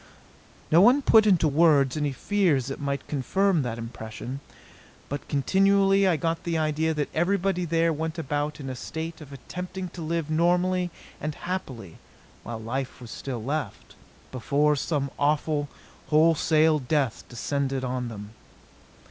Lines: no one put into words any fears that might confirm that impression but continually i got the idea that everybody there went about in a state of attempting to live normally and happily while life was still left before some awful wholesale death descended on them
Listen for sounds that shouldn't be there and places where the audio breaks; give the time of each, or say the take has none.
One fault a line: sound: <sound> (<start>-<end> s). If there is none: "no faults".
no faults